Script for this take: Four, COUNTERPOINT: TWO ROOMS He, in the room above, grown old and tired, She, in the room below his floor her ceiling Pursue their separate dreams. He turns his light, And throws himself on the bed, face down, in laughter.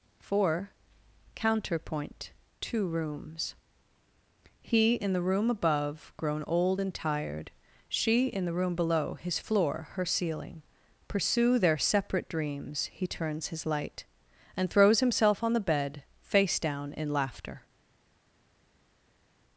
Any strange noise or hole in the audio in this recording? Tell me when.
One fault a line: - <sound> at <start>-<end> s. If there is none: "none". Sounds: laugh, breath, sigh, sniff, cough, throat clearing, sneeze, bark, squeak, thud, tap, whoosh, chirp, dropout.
none